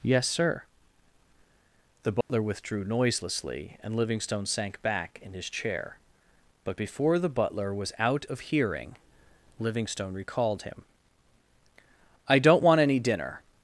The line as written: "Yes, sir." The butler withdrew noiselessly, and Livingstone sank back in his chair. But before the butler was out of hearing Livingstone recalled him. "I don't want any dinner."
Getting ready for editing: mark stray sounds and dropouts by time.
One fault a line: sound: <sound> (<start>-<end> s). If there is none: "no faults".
sound: dropout (2.2-2.3 s)